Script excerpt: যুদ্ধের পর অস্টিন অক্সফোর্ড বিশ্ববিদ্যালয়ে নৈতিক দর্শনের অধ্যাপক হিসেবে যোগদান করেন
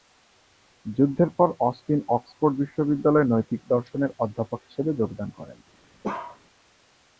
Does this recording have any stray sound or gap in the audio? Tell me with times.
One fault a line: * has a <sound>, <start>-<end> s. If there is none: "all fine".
* has a bark, 6.0-6.4 s